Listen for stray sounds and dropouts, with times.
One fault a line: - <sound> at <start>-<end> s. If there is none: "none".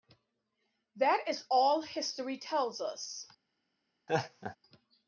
- laugh at 4.1-4.6 s